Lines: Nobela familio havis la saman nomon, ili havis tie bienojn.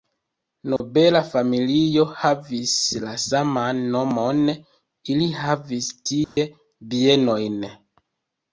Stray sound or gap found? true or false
true